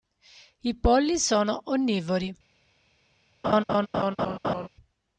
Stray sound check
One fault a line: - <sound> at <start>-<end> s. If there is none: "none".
- laugh at 3.4-4.7 s